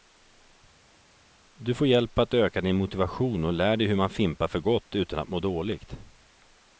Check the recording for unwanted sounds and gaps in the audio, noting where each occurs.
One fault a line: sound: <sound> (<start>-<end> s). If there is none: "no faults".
no faults